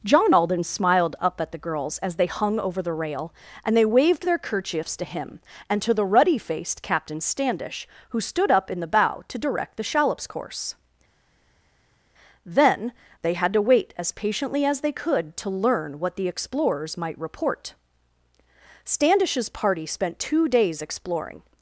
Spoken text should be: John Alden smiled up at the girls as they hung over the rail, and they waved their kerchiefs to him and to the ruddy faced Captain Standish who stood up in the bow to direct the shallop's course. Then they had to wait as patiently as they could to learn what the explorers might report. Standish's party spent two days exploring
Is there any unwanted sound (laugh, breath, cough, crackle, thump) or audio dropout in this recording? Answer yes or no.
no